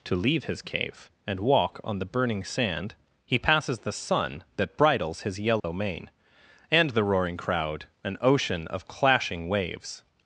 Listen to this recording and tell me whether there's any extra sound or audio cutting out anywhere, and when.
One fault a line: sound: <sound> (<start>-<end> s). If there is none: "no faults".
sound: dropout (5.6-5.6 s)